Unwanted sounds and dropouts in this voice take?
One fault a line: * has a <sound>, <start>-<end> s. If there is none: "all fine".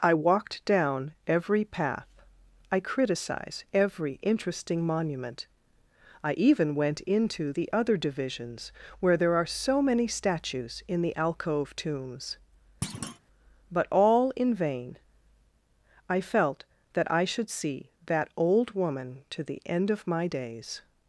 * has a thud, 12.8-13.2 s